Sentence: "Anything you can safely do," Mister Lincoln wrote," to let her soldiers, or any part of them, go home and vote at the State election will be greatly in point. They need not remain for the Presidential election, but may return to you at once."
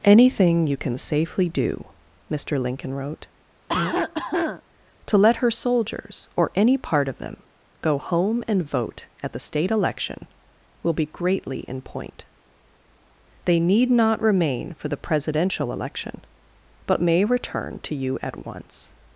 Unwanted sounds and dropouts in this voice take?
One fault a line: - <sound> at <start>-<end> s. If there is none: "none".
- cough at 3.7-4.6 s